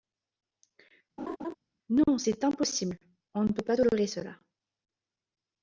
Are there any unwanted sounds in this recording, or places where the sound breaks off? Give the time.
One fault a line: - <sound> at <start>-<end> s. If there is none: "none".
- laugh at 1.2-1.6 s